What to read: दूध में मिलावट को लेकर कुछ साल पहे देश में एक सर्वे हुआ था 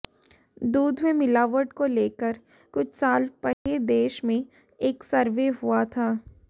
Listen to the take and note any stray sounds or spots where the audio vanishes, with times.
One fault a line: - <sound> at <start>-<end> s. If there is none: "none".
- dropout at 3.5-3.7 s